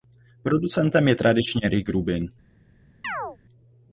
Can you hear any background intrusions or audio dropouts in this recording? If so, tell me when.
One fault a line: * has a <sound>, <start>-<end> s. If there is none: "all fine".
* has a chirp, 3.0-3.4 s